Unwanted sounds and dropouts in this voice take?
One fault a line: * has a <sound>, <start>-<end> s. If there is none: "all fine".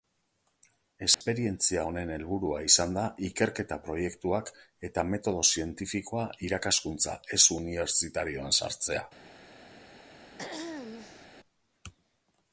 * has a dropout, 1.1-1.2 s
* has a throat clearing, 10.4-11.3 s